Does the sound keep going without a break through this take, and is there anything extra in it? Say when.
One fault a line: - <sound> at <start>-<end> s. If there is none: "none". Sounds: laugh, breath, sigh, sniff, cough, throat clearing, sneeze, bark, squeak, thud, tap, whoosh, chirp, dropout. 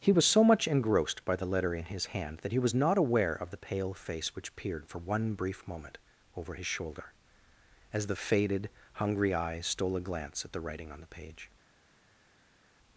none